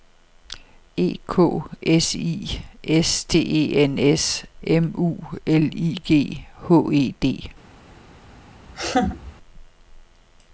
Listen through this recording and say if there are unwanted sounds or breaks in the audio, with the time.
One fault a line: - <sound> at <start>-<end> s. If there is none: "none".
- laugh at 8.7-9.3 s